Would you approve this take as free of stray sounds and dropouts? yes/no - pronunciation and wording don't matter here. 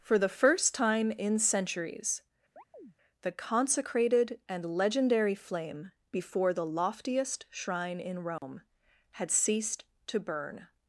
no